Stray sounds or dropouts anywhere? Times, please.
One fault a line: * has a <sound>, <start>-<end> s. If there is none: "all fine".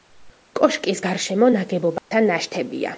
* has a dropout, 2.0-2.1 s